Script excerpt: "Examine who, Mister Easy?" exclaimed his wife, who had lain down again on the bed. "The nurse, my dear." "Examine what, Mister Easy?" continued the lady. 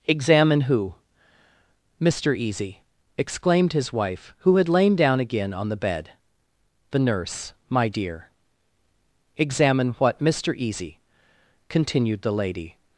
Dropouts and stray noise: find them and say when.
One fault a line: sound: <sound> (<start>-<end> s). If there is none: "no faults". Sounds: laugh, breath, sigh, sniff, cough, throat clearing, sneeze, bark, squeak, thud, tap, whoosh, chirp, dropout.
no faults